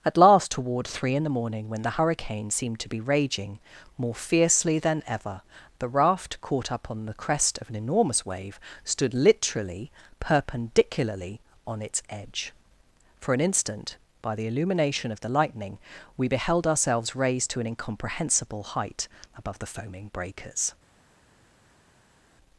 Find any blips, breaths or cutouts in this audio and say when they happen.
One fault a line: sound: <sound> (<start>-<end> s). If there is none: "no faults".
no faults